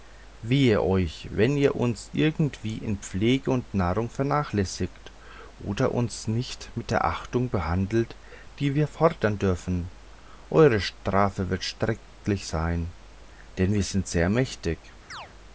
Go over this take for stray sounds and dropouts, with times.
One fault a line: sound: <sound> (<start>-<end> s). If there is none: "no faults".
sound: chirp (15.1-15.3 s)